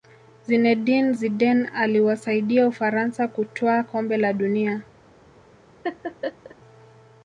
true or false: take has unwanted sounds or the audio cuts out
true